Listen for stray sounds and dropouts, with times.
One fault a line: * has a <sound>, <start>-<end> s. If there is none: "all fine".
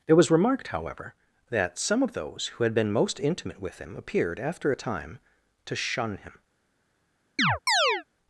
* has a chirp, 7.4-8.0 s